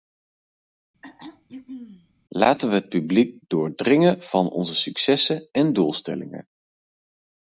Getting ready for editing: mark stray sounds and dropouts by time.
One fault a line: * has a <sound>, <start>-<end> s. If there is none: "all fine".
* has a throat clearing, 1.0-2.1 s